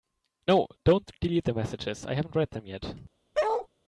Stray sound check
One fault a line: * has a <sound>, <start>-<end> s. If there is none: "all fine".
* has a bark, 3.3-3.7 s